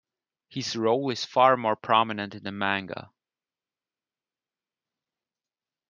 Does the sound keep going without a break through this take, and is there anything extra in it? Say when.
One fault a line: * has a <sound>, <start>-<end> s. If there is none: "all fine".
all fine